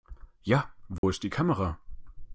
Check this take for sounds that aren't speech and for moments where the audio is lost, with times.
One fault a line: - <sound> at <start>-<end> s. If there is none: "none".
- dropout at 1.0-1.0 s